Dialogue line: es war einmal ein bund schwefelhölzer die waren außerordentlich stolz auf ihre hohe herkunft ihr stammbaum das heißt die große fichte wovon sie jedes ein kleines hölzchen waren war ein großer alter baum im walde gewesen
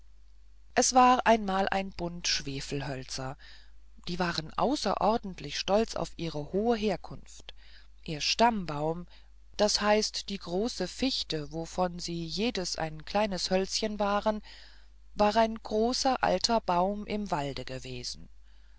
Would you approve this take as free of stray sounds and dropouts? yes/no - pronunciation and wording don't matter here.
yes